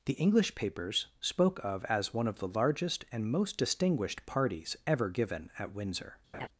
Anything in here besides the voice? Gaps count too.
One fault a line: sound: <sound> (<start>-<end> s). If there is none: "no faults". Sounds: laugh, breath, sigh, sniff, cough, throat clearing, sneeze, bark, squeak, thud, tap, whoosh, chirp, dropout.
sound: laugh (6.3-6.5 s)